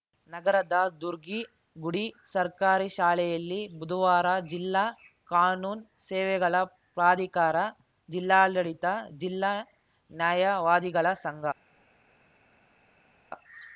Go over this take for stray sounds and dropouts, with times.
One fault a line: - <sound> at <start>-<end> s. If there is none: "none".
none